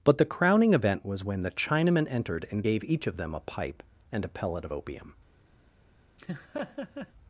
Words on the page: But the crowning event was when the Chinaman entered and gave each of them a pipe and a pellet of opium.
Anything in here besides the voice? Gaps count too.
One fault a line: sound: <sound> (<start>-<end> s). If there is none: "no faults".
sound: laugh (6.2-7.1 s)